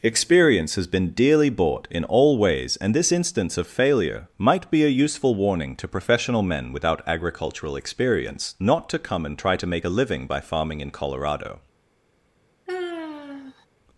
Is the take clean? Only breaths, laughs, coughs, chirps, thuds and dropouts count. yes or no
no